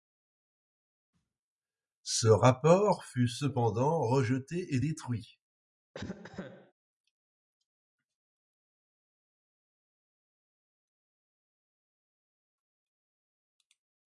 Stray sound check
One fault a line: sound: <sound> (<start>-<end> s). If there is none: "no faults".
sound: cough (5.9-6.7 s)